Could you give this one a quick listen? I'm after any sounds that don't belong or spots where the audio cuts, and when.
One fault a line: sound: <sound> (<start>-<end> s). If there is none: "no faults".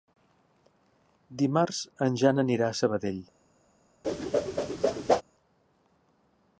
sound: whoosh (4.0-5.2 s)